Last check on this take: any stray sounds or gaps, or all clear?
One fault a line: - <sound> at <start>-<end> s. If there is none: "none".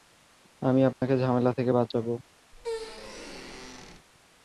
- dropout at 0.9-1.0 s
- squeak at 2.5-4.1 s